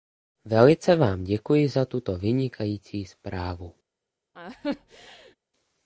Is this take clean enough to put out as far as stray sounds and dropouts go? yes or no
no